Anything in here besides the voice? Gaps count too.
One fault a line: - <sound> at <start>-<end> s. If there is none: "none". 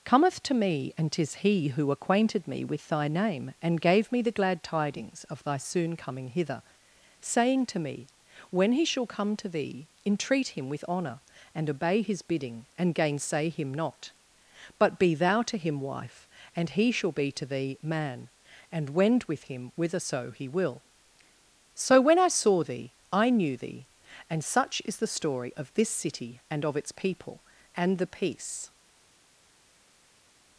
none